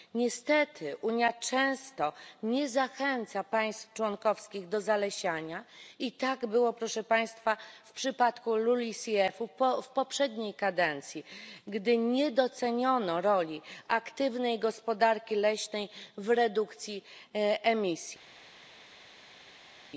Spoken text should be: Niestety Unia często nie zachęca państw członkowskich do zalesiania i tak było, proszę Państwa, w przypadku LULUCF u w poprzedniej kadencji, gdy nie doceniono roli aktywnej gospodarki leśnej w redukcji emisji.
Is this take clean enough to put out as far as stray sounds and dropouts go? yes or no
yes